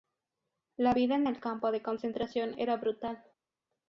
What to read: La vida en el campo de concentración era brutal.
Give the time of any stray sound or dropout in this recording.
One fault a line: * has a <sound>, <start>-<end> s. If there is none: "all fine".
all fine